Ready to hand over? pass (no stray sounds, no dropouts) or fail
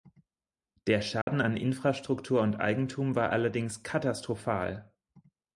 fail